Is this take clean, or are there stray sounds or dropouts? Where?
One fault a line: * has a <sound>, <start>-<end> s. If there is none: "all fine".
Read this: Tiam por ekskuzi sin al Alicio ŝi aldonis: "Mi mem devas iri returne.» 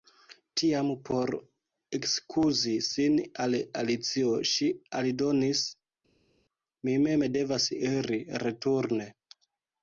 all fine